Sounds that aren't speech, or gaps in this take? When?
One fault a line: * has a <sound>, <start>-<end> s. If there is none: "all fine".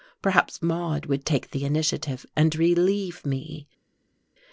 all fine